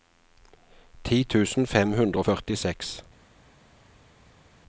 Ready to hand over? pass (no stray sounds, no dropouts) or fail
pass